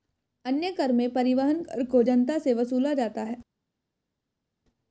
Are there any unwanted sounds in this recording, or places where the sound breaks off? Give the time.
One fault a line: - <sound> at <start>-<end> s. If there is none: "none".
none